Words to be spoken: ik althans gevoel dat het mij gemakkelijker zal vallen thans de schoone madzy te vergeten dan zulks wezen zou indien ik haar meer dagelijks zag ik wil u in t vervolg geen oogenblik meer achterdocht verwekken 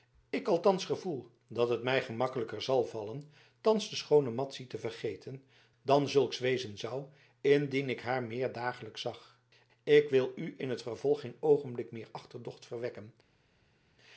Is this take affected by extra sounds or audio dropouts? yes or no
no